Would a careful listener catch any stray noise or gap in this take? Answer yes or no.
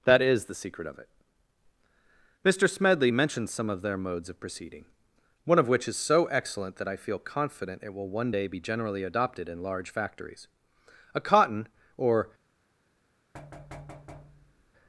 yes